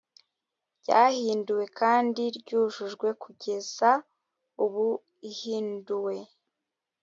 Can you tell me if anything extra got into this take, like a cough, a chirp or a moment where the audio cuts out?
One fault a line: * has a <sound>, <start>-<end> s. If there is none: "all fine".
all fine